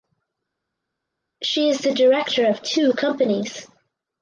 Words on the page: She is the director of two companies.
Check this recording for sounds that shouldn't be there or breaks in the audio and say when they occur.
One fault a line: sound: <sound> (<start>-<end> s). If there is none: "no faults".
no faults